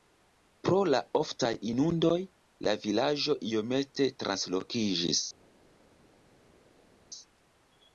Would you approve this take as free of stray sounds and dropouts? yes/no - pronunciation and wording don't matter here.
yes